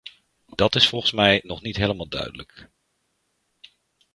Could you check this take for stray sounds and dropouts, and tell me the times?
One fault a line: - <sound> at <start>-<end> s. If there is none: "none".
none